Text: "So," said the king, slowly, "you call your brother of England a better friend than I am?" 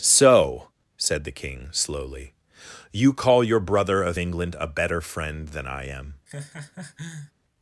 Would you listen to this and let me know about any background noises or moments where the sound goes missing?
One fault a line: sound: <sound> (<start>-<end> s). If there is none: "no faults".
sound: laugh (6.3-7.3 s)